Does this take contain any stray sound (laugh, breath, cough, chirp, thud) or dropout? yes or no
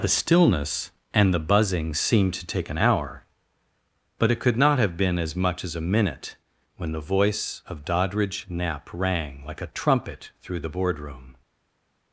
no